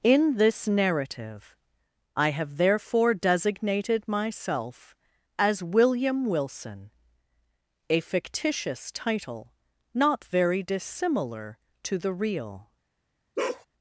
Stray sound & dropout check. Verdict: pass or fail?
fail